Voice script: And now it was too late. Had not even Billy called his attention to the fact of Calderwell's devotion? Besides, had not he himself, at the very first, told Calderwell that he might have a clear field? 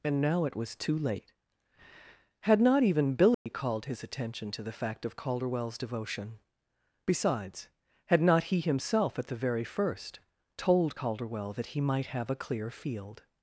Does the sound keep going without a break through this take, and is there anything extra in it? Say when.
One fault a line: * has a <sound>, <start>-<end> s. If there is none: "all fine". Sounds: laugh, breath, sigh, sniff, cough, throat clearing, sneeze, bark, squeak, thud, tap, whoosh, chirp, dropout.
* has a dropout, 3.3-3.5 s